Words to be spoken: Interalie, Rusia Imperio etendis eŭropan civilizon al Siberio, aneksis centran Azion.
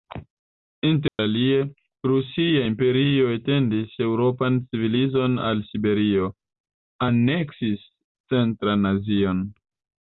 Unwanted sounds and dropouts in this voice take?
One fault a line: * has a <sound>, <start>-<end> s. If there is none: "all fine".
* has a dropout, 1.1-1.2 s